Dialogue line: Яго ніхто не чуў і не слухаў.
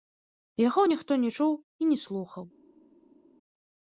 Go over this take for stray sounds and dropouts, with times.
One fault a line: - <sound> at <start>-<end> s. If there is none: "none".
none